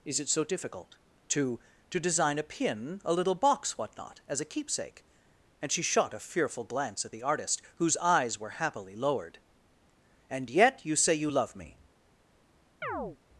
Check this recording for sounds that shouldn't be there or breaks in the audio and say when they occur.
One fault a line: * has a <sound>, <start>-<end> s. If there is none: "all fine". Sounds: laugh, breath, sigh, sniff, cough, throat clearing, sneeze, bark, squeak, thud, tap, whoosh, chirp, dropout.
* has a chirp, 12.8-13.2 s